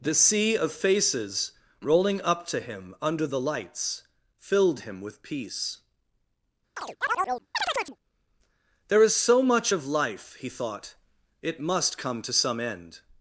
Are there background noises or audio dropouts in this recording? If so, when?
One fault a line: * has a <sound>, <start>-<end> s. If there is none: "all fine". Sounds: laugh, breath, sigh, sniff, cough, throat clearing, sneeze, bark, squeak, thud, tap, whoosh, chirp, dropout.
* has a chirp, 6.8-8.0 s